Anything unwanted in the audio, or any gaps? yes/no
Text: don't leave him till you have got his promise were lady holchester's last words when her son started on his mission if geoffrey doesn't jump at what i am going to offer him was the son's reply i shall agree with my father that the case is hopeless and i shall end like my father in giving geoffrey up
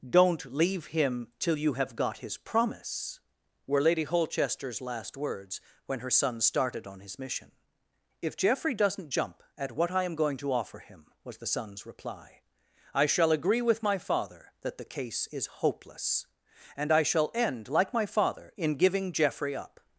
no